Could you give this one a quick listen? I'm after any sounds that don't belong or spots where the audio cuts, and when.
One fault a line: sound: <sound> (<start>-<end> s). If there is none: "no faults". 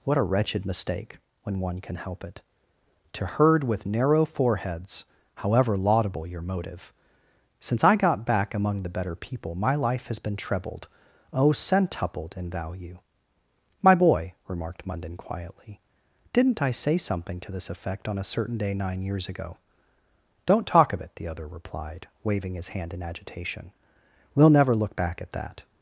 no faults